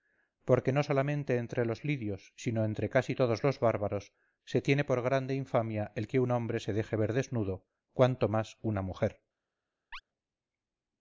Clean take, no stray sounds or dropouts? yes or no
no